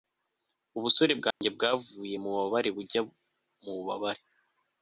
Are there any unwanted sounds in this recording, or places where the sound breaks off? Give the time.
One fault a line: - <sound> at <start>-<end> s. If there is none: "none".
- dropout at 1.3-1.4 s